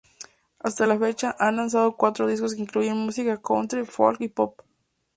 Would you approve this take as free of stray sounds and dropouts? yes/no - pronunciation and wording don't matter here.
yes